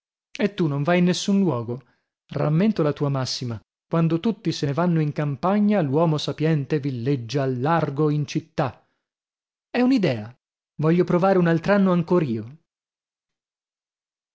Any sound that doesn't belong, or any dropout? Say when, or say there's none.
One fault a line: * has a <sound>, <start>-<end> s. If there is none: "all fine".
all fine